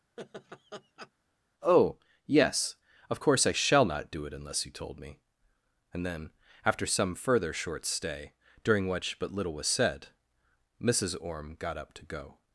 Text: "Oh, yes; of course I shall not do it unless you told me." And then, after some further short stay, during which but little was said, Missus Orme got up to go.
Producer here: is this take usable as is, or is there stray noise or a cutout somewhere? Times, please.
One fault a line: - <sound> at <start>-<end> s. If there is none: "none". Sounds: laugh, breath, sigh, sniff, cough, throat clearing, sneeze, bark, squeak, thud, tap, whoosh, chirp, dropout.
- laugh at 0.2-1.1 s